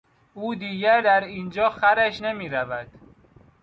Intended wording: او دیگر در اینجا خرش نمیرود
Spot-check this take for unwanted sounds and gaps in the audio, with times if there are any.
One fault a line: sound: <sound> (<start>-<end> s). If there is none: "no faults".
no faults